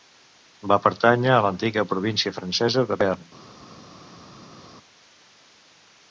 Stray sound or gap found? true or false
false